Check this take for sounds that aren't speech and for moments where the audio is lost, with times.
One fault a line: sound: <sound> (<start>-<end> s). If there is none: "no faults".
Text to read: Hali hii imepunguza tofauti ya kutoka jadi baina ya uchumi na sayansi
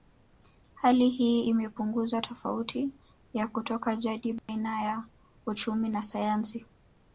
sound: dropout (4.4-4.5 s)